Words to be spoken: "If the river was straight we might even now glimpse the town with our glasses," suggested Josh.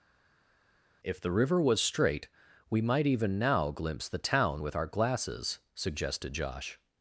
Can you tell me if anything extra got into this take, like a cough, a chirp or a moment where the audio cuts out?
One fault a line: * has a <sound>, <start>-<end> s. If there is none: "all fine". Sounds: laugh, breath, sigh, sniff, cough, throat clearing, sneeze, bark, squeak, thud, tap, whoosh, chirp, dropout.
all fine